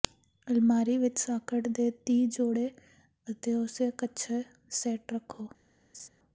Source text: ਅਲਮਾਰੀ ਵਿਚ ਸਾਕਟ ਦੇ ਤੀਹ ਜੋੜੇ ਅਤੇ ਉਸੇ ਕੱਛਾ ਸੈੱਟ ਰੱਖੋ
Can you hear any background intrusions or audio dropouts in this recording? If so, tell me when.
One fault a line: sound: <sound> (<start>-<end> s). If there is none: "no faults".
sound: laugh (5.9-6.1 s)